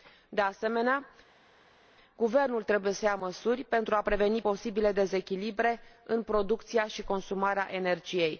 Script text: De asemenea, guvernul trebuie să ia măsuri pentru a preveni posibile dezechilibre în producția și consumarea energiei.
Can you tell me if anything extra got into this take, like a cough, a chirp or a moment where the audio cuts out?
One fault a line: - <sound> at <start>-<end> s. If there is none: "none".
none